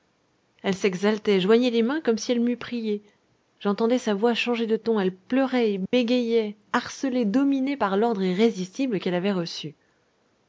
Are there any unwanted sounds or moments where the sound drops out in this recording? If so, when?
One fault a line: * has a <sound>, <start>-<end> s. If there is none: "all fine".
* has a dropout, 5.9-5.9 s